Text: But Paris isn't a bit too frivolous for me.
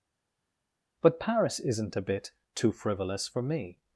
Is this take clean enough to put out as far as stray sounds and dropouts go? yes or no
yes